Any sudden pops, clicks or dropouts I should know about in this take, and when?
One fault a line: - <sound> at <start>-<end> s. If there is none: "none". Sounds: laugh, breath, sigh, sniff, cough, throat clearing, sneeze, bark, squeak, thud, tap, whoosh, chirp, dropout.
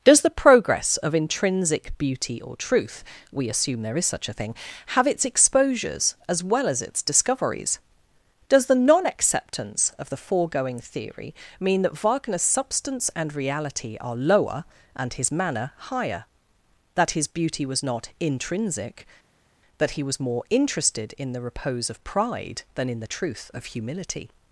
none